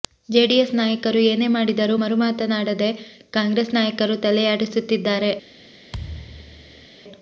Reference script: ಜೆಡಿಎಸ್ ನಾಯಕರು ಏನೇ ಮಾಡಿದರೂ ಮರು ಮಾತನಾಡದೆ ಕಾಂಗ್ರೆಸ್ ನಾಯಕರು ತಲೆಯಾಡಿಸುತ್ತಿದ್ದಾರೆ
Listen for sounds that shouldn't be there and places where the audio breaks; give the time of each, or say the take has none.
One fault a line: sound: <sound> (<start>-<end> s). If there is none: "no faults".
sound: thud (5.9-6.9 s)